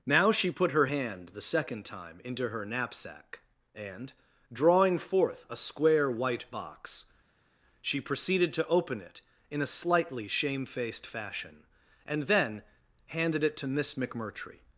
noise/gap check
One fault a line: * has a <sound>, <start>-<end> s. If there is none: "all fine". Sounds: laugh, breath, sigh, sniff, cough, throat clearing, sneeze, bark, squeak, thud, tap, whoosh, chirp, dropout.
all fine